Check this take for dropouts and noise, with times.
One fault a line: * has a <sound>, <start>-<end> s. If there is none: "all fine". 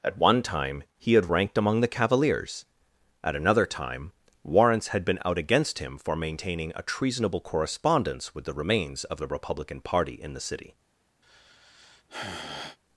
* has a sigh, 11.2-12.8 s